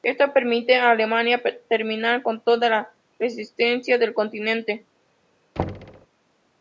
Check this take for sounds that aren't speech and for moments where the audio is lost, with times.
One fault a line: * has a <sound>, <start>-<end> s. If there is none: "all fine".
* has a thud, 5.6-6.1 s